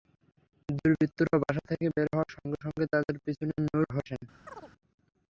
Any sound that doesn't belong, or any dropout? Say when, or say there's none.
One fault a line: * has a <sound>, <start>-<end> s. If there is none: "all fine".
* has a chirp, 4.5-4.7 s